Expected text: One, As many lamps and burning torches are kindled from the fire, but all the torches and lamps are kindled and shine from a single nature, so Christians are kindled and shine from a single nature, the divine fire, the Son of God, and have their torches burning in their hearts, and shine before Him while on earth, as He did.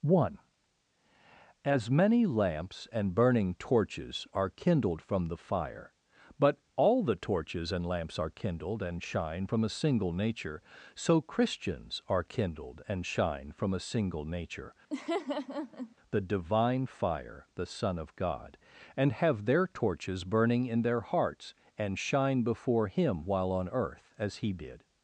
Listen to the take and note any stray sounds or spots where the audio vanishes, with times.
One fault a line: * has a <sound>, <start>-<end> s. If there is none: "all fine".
* has a laugh, 14.9-16.0 s